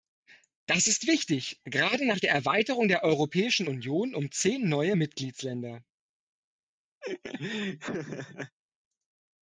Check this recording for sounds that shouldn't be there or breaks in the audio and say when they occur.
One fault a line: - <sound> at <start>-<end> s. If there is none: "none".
- laugh at 7.0-8.6 s